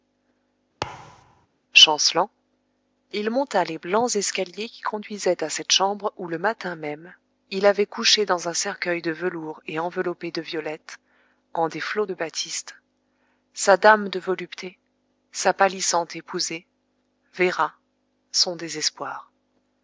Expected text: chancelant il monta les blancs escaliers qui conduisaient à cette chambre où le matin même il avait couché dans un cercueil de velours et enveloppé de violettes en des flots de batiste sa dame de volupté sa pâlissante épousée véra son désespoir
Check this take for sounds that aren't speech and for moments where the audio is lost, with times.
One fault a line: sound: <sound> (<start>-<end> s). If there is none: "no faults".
sound: thud (0.8-1.5 s)